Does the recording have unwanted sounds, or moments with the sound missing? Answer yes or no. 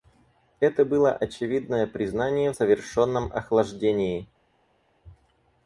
no